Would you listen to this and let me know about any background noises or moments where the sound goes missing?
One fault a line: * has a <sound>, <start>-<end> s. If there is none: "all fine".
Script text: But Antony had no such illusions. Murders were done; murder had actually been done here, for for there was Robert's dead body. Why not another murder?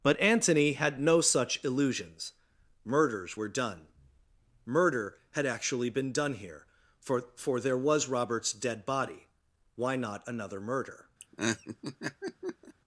* has a laugh, 11.2-12.7 s